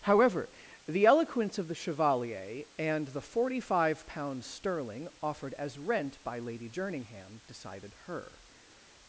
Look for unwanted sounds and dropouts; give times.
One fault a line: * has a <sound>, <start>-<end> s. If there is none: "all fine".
all fine